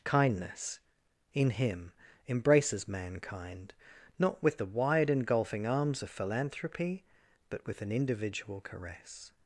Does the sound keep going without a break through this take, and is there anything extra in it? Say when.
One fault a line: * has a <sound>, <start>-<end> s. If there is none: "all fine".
all fine